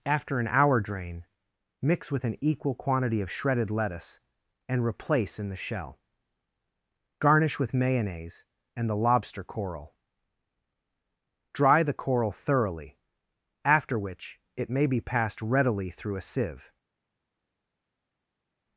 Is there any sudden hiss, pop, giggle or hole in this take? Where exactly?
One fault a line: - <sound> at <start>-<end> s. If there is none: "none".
none